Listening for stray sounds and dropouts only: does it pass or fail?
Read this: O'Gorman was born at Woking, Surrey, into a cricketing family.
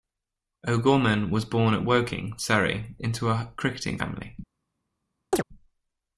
fail